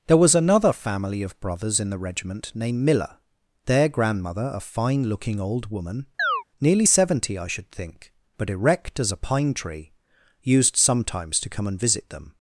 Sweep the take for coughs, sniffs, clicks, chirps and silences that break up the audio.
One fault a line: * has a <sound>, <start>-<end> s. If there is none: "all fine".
* has a chirp, 6.2-6.4 s